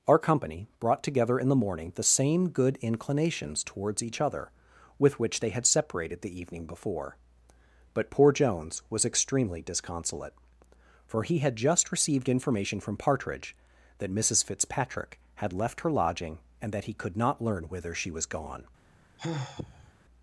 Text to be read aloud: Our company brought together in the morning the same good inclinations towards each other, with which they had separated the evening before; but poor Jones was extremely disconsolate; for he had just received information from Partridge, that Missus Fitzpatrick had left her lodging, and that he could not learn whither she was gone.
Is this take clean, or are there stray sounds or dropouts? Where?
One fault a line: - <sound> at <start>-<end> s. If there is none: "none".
- sigh at 19.2-19.9 s